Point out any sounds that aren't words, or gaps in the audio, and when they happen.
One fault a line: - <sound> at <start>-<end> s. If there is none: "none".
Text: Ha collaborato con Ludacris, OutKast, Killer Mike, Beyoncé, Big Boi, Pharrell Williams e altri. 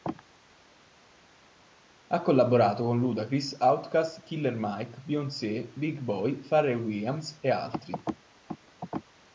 none